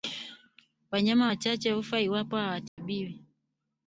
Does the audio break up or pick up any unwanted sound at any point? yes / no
yes